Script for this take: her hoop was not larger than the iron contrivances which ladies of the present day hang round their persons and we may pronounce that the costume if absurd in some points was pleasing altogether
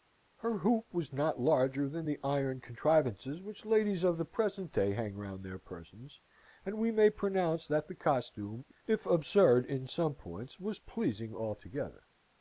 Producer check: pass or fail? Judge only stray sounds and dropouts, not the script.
pass